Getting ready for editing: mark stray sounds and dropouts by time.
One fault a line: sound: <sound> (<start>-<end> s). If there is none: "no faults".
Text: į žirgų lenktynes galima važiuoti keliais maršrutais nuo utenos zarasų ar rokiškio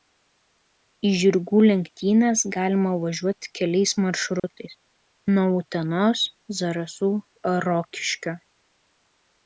sound: dropout (4.4-4.4 s)